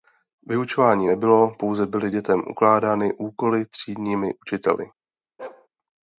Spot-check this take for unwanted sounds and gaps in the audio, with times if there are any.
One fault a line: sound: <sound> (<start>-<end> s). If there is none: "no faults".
sound: bark (5.4-5.7 s)